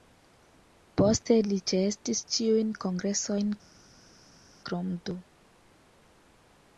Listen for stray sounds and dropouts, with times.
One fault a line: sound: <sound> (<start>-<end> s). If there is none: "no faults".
no faults